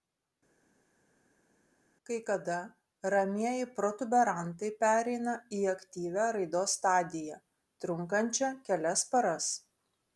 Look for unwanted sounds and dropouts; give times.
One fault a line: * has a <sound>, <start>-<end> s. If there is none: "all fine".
all fine